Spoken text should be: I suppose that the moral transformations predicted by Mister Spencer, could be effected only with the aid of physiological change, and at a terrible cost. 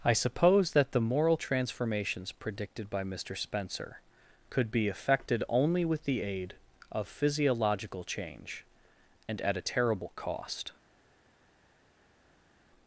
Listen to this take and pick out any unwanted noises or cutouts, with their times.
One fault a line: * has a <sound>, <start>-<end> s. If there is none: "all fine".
all fine